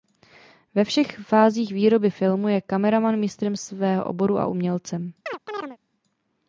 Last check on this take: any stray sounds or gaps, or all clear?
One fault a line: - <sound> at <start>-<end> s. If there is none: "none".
- chirp at 5.3-5.8 s